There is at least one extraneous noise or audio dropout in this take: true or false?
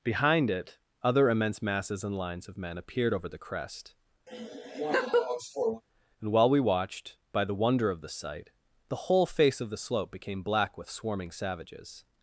true